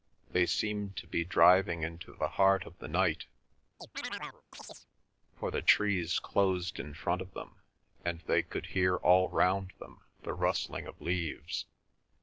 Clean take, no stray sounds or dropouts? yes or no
no